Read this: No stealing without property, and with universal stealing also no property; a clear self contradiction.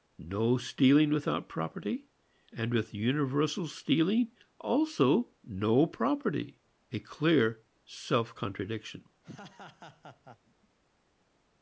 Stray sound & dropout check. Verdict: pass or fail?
fail